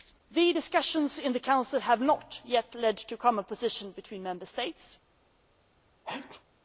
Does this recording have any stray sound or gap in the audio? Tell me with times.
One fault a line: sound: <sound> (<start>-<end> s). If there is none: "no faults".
sound: sneeze (6.0-6.4 s)